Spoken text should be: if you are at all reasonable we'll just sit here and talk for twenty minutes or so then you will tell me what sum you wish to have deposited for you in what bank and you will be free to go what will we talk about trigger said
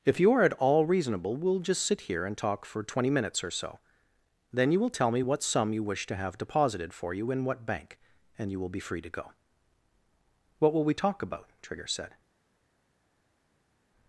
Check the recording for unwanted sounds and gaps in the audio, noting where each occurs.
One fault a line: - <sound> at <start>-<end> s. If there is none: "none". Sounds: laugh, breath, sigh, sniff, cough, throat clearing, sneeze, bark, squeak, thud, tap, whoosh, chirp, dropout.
none